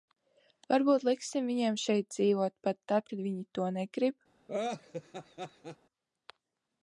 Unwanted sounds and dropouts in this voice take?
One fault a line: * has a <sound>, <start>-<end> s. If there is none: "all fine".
* has a laugh, 4.5-5.8 s